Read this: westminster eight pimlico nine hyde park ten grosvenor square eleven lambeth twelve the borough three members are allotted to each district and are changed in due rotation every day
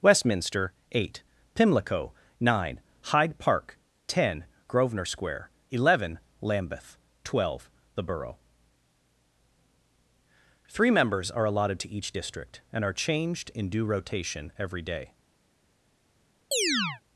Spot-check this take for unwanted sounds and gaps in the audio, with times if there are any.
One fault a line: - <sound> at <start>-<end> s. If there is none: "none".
- chirp at 16.5-17.0 s